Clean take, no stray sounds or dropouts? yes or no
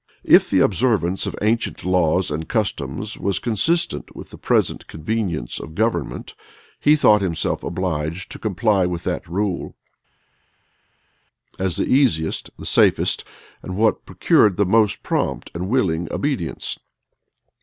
yes